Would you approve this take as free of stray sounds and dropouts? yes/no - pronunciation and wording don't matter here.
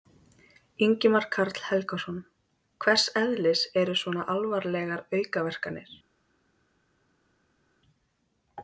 yes